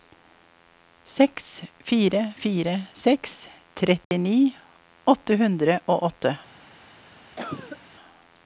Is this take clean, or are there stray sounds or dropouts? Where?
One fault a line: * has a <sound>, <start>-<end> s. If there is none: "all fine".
* has a dropout, 4.0-4.1 s
* has a cough, 7.4-7.8 s